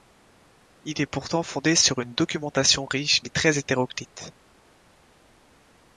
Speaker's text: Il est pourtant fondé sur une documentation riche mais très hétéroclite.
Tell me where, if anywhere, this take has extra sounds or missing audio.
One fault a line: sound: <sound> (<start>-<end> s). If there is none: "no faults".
no faults